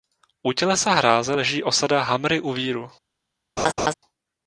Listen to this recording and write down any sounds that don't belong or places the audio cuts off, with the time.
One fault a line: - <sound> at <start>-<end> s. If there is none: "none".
- laugh at 3.6-3.9 s